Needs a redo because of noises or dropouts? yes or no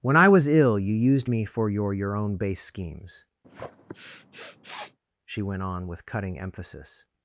yes